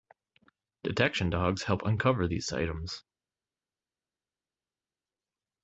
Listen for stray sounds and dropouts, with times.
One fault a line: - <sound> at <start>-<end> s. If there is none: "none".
none